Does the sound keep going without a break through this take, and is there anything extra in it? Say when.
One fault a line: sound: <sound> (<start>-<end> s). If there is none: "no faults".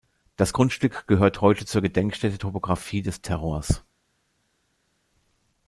no faults